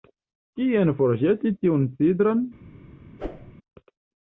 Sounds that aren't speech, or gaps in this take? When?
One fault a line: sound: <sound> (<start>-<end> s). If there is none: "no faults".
sound: whoosh (3.2-3.5 s)